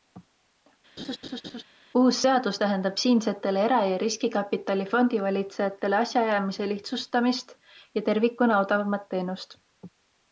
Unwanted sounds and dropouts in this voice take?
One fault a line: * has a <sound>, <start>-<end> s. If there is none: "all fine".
* has a laugh, 1.0-1.6 s